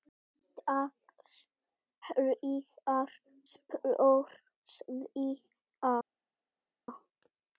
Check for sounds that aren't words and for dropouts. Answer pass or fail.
pass